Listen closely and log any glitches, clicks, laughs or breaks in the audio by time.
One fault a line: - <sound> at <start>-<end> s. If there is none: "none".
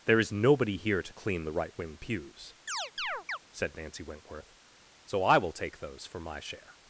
- chirp at 2.7-3.4 s